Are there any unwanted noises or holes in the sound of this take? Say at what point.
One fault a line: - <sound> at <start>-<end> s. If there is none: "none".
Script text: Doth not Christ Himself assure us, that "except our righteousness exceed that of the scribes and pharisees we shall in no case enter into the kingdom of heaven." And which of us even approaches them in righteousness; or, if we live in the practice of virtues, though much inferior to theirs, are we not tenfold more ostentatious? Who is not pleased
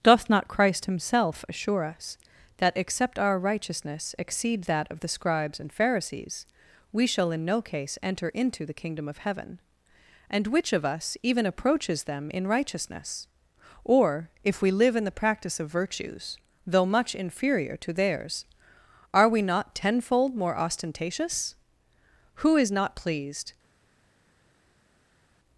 none